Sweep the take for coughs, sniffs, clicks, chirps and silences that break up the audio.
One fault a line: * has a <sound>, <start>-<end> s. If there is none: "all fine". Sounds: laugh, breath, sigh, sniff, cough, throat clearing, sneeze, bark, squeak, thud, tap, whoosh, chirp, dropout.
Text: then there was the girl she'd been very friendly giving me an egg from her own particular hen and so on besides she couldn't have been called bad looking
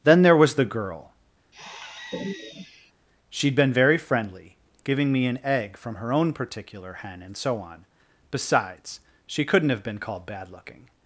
* has a sigh, 1.5-2.9 s